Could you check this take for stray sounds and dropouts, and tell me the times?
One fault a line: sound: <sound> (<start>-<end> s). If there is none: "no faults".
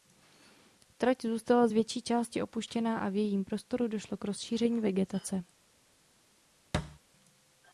sound: thud (6.7-7.0 s)